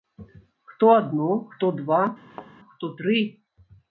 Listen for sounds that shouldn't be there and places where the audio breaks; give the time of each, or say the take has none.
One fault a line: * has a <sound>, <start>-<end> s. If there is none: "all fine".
* has a thud, 2.3-2.5 s